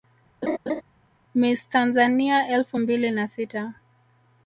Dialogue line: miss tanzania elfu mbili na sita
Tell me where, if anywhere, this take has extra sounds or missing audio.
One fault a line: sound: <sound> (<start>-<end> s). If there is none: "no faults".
sound: laugh (0.4-0.8 s)